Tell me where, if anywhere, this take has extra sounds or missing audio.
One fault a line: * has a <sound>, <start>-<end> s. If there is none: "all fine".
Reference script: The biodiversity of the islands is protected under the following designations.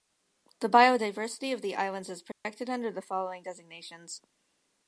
* has a dropout, 2.3-2.5 s